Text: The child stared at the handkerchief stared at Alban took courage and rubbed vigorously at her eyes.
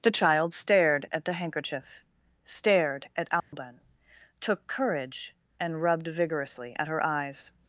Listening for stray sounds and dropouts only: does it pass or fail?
fail